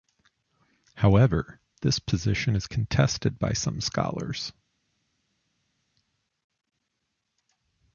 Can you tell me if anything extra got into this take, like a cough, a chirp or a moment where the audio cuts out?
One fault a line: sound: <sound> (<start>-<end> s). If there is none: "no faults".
no faults